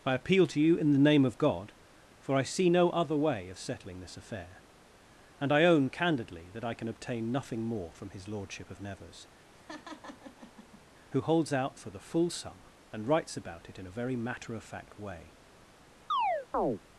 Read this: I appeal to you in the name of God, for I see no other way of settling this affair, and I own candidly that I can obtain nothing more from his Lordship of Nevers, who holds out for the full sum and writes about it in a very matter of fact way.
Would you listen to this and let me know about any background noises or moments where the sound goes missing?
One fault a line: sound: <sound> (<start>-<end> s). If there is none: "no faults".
sound: laugh (9.5-10.8 s)
sound: chirp (16.1-16.8 s)